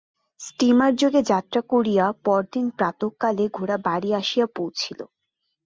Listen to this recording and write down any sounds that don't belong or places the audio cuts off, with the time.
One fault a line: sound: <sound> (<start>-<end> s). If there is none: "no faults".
no faults